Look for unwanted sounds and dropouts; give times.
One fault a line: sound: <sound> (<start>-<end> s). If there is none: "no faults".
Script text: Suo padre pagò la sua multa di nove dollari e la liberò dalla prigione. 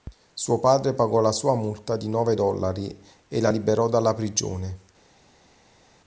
no faults